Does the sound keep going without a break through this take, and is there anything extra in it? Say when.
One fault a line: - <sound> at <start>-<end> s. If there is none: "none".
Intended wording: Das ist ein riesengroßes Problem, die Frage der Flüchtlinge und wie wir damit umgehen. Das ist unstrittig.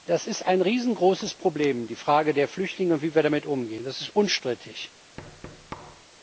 - thud at 5.2-6.1 s